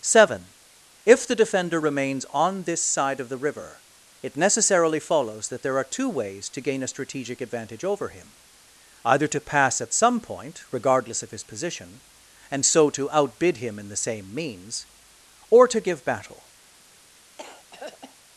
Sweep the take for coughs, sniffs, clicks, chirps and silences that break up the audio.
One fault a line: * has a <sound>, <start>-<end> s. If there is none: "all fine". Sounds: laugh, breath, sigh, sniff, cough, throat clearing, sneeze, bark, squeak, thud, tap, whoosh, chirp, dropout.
* has a throat clearing, 17.4-18.2 s